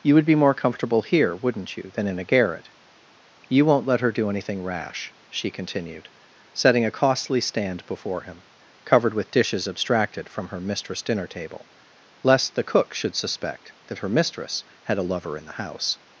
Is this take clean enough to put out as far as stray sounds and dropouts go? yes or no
yes